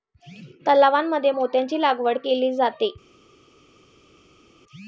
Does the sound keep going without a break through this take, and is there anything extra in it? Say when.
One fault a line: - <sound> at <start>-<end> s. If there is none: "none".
none